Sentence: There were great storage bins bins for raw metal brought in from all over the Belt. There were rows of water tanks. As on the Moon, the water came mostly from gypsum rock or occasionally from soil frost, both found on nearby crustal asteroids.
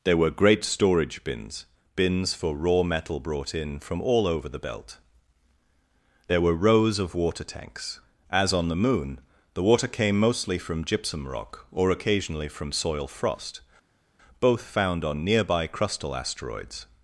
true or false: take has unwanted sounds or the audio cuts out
false